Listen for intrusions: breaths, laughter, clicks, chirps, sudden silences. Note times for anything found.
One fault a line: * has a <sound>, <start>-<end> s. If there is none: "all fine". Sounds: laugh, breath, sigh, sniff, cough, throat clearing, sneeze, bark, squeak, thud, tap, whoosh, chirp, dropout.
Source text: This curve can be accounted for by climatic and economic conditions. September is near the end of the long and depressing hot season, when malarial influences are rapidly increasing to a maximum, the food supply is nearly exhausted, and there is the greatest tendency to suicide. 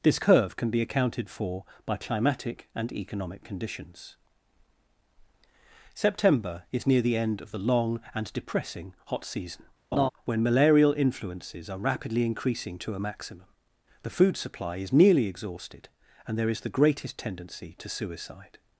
* has a laugh, 9.9-10.1 s